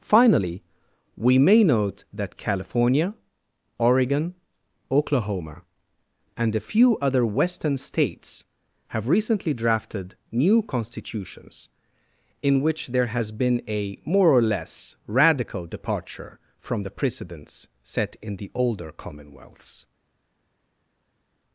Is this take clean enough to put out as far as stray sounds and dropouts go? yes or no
yes